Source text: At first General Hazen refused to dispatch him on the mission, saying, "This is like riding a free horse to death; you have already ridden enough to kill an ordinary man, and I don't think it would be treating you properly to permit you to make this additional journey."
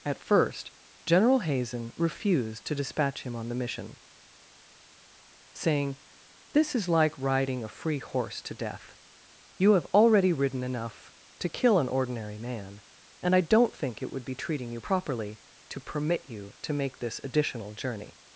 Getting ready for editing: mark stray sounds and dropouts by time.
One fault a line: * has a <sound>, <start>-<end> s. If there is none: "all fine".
all fine